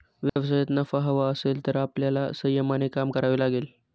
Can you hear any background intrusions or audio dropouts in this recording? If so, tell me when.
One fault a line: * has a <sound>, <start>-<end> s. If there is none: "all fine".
* has a dropout, 0.3-0.4 s